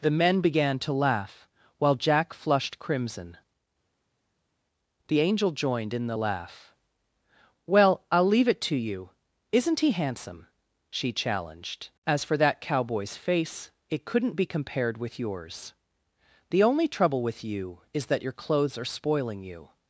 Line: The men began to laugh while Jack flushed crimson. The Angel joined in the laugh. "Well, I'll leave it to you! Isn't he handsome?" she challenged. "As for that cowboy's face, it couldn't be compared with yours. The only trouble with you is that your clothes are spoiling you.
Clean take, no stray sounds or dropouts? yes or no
yes